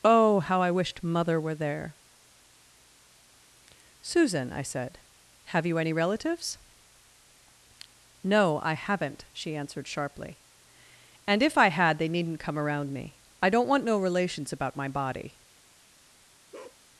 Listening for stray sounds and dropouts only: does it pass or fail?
fail